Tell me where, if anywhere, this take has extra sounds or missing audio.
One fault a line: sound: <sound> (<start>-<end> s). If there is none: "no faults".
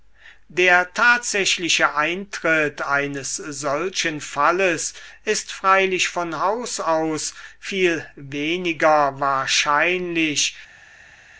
no faults